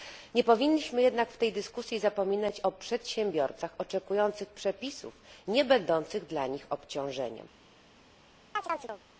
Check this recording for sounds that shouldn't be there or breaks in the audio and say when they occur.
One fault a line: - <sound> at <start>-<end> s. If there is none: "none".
- chirp at 8.6-9.0 s